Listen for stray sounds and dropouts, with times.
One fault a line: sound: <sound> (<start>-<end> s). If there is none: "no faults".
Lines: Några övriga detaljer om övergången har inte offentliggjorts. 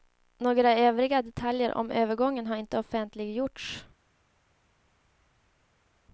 no faults